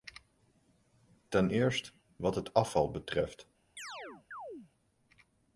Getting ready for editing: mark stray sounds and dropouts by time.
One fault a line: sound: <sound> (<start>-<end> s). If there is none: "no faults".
sound: chirp (3.8-4.7 s)